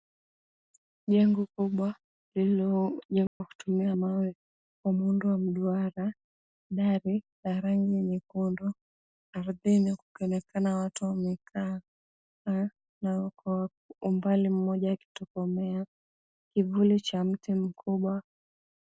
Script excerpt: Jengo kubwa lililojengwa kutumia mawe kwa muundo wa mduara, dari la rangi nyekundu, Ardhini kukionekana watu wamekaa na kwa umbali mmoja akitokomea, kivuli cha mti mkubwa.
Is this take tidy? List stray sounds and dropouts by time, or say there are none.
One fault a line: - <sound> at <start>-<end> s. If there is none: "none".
- dropout at 3.3-3.4 s